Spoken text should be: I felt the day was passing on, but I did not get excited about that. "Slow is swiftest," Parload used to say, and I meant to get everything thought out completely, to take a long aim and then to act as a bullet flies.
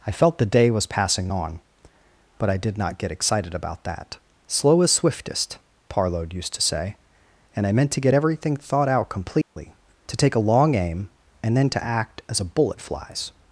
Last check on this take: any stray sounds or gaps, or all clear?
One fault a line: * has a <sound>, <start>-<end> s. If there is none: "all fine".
* has a dropout, 9.4-9.6 s